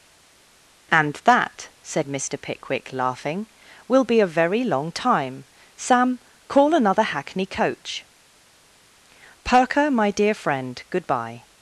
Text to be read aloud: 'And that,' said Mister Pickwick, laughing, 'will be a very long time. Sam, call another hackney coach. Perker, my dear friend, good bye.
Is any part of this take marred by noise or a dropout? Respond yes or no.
no